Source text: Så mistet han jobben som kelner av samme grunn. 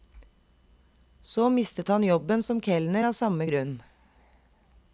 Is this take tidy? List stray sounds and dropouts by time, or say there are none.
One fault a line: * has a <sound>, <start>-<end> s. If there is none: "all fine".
all fine